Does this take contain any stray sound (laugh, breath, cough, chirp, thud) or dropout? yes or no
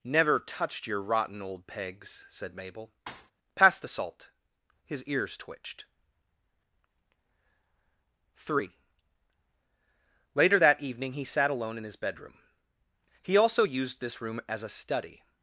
yes